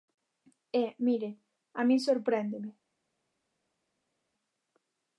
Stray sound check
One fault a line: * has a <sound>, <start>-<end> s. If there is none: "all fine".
all fine